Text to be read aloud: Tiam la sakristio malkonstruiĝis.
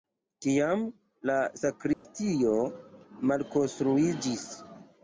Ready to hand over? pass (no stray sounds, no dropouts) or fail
fail